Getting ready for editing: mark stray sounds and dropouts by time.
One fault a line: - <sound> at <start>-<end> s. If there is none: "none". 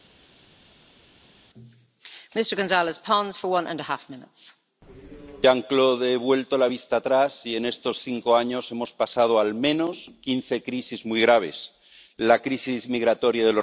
none